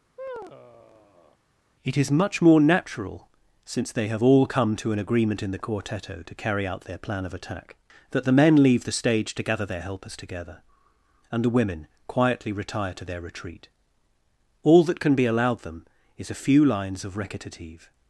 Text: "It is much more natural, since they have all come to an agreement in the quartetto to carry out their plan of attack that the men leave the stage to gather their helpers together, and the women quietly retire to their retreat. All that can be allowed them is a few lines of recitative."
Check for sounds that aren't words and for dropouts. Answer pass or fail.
fail